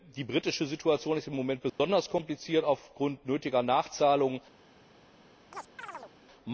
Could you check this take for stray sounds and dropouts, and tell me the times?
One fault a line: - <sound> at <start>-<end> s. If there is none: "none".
- dropout at 1.7-1.8 s
- chirp at 5.5-6.1 s